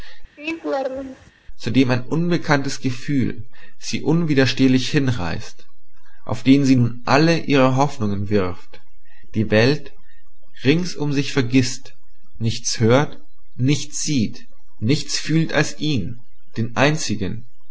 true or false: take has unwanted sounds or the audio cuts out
true